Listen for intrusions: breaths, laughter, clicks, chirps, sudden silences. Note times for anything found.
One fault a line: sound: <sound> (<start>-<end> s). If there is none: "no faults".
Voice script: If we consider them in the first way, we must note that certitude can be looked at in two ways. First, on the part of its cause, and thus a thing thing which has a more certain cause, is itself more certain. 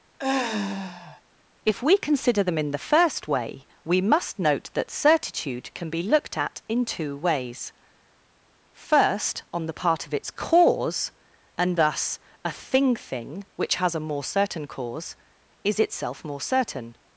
sound: sigh (0.2-1.2 s)